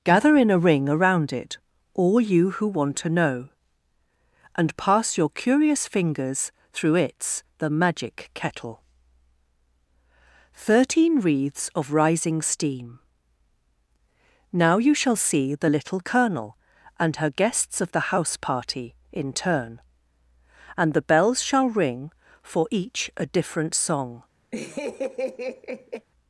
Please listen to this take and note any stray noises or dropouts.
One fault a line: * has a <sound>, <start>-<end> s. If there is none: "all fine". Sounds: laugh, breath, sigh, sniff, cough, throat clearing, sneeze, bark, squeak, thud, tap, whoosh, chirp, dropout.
* has a laugh, 24.5-26.1 s